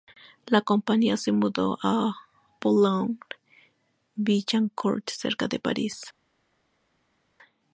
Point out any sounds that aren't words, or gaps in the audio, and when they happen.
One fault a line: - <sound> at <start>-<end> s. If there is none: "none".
none